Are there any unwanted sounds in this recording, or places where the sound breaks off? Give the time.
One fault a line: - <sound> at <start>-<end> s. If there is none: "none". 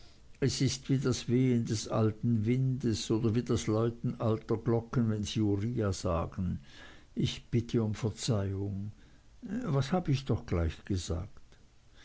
none